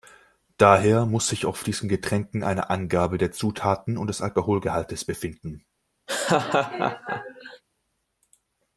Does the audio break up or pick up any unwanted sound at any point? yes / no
yes